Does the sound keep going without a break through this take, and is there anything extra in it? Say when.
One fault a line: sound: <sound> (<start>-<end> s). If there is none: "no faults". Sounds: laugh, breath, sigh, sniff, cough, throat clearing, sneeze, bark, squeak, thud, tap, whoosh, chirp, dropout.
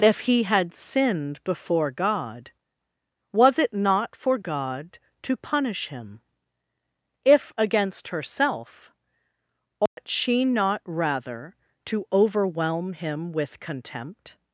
sound: dropout (9.9-10.0 s)